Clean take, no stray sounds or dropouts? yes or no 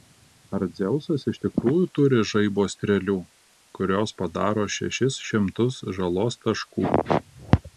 yes